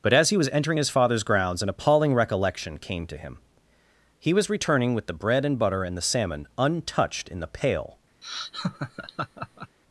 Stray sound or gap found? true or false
true